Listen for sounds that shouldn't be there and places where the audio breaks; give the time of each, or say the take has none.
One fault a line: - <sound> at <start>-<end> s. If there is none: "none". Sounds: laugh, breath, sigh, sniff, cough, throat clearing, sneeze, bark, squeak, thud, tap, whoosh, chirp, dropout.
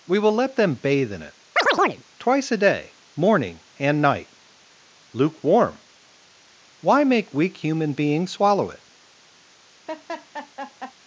- chirp at 1.6-2.0 s
- laugh at 9.9-10.9 s